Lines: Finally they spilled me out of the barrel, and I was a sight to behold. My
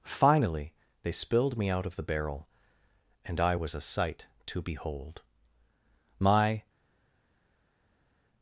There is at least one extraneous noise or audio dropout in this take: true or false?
false